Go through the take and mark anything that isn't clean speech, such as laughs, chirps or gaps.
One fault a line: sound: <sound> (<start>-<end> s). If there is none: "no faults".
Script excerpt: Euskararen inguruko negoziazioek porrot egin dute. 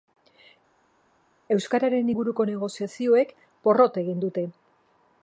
no faults